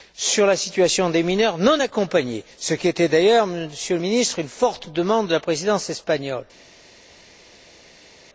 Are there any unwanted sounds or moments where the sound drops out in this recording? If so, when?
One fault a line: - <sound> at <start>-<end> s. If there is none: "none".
none